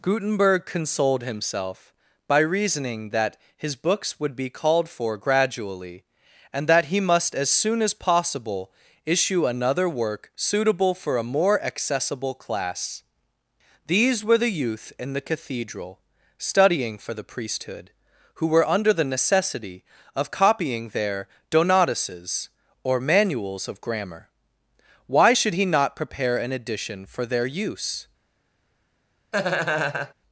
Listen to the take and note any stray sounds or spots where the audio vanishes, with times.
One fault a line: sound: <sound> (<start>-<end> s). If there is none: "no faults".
sound: laugh (29.3-30.1 s)